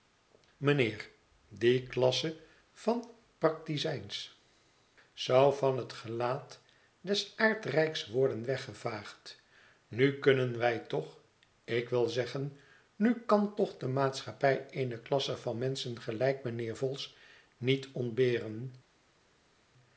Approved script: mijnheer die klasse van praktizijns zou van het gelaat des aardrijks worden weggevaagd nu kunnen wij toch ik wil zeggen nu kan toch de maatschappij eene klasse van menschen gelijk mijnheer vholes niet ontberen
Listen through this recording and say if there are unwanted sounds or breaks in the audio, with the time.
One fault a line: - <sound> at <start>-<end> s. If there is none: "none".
none